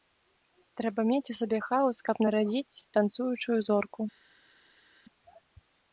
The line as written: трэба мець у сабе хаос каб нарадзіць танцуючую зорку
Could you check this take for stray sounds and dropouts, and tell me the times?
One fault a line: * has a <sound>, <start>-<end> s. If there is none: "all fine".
all fine